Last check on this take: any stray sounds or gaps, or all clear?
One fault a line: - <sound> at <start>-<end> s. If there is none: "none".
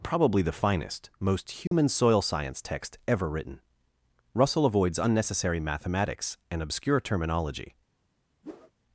- dropout at 1.7-1.7 s
- whoosh at 8.4-8.7 s